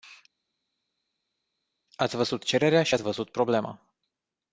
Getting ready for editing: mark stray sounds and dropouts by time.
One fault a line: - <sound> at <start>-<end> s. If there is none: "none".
none